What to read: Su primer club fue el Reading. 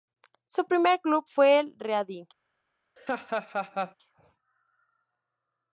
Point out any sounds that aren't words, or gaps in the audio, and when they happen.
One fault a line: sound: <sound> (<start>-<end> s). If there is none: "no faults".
sound: laugh (3.0-3.9 s)